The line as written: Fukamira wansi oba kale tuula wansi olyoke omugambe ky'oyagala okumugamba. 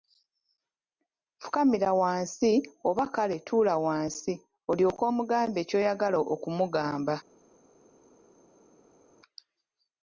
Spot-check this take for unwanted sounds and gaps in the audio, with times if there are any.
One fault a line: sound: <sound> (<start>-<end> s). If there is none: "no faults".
no faults